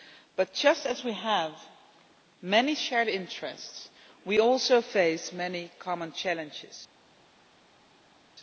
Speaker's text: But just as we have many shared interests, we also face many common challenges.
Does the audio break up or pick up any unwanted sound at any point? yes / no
no